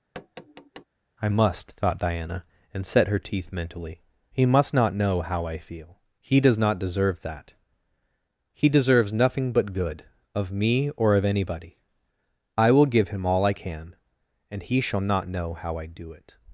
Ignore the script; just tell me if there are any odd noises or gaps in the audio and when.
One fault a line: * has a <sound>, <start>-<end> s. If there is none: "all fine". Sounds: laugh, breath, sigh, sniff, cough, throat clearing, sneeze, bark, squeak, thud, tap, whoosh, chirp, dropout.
* has a tap, 0.1-0.8 s